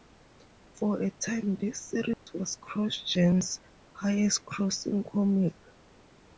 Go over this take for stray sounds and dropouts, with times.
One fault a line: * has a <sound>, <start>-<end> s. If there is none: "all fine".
* has a dropout, 2.1-2.3 s